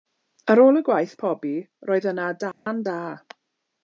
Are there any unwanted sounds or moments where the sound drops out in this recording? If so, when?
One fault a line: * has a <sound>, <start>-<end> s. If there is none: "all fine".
* has a dropout, 2.5-2.7 s